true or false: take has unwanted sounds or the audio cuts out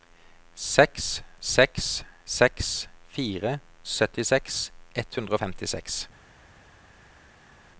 false